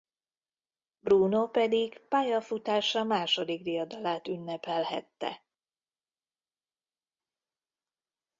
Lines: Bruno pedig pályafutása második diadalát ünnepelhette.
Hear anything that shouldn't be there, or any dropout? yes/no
no